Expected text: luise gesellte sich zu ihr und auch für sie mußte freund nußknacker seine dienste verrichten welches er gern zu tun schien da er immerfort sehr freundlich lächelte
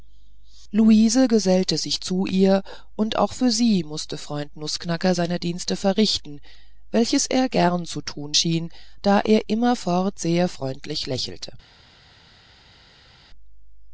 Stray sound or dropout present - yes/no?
no